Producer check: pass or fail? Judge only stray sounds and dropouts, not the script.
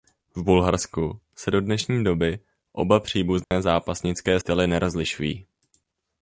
fail